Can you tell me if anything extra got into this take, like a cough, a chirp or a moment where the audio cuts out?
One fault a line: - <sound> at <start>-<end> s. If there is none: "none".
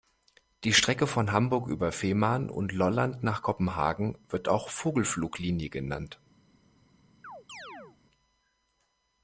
- chirp at 7.2-8.0 s